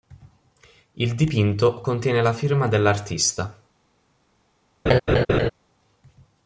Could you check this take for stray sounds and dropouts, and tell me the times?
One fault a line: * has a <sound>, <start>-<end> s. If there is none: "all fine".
* has a laugh, 4.9-5.5 s